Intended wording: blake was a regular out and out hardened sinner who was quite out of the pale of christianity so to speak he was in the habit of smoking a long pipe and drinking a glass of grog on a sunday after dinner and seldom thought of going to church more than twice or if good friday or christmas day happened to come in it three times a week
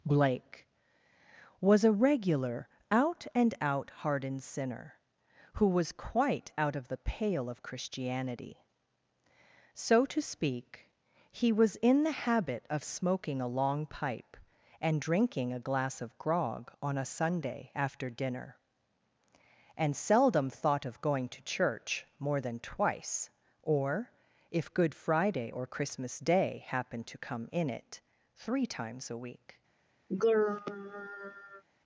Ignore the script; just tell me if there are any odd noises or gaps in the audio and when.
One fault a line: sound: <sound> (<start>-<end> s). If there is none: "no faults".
sound: throat clearing (30.1-31.6 s)